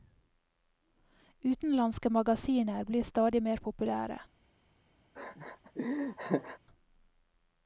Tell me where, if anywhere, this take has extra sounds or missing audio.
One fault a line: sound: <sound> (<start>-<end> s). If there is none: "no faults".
sound: laugh (5.1-6.6 s)